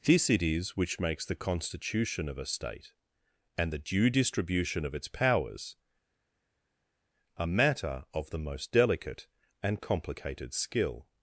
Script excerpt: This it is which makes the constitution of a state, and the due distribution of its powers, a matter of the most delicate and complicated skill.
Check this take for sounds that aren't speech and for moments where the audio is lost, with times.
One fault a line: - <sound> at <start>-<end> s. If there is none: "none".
none